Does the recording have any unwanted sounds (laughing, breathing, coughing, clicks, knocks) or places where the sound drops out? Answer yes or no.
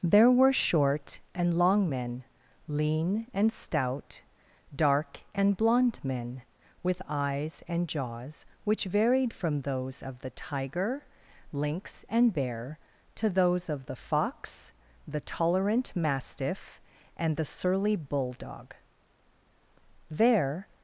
no